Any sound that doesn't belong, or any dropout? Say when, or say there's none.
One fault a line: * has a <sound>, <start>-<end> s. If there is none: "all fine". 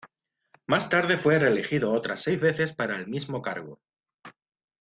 all fine